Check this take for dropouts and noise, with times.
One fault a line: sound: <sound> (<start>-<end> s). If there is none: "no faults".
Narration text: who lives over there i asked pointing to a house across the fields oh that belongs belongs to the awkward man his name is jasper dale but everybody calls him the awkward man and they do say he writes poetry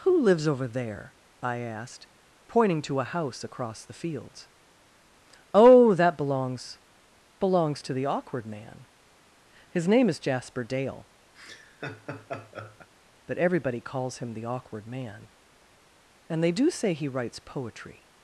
sound: laugh (11.3-12.9 s)